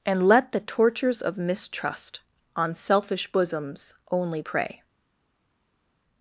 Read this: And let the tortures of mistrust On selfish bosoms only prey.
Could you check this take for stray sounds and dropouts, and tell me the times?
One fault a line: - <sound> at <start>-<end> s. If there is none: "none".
none